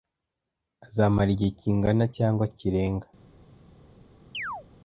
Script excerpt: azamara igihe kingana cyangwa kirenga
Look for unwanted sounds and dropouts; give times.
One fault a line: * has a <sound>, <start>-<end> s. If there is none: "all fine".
* has a chirp, 4.3-4.7 s